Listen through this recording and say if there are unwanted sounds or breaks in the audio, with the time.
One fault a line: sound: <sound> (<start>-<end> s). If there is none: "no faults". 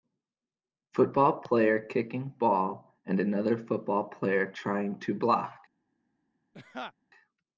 sound: laugh (6.5-6.9 s)